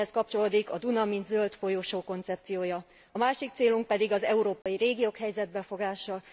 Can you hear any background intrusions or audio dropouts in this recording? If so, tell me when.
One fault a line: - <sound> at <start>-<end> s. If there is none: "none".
- dropout at 4.6-4.7 s